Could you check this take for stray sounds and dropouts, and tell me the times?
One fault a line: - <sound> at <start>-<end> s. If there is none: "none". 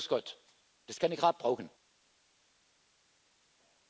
none